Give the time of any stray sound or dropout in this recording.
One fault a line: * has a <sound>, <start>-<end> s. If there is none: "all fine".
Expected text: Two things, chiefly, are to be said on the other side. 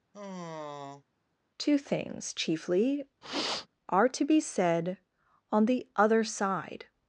* has a sigh, 0.1-1.0 s
* has a sniff, 3.2-3.7 s